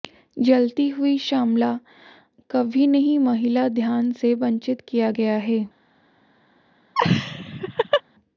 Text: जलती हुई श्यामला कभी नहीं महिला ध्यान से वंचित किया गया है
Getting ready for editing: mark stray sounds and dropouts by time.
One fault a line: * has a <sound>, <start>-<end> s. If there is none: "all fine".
* has a laugh, 6.9-8.0 s